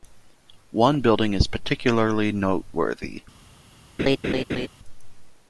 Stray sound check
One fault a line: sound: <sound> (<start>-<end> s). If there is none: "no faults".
sound: laugh (4.0-4.7 s)